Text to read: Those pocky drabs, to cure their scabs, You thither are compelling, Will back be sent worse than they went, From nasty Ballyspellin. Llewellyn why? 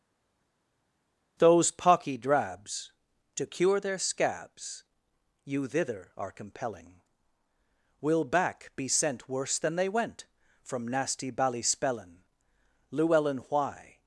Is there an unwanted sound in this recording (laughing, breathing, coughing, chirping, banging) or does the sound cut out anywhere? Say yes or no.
no